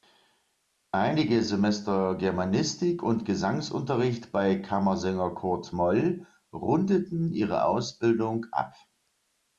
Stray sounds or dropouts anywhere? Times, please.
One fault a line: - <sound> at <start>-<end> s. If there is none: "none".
none